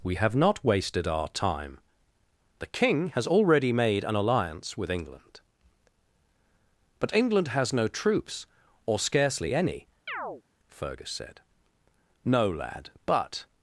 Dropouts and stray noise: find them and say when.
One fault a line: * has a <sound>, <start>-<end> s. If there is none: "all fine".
* has a chirp, 10.1-10.4 s